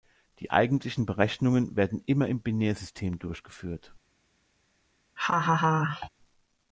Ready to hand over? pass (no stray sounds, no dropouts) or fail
fail